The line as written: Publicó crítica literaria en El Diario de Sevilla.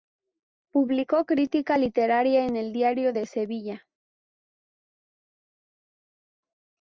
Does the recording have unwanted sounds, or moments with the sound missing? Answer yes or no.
no